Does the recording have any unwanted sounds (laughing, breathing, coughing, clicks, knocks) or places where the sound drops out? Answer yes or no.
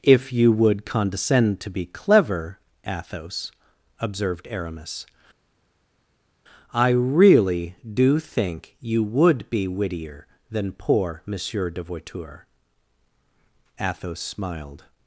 no